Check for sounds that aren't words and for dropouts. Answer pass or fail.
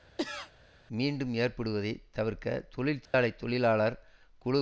fail